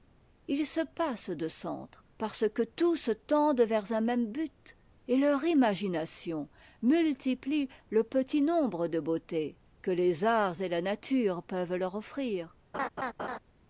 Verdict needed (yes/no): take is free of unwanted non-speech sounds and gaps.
no